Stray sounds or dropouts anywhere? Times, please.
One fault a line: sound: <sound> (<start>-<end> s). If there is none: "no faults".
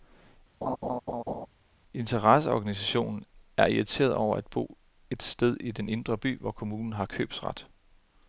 sound: laugh (0.6-1.5 s)